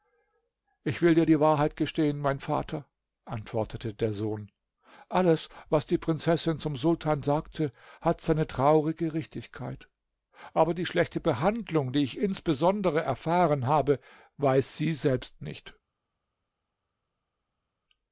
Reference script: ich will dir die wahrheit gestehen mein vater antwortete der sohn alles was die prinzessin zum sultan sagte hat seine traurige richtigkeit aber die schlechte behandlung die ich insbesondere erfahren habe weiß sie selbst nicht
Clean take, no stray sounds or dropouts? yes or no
yes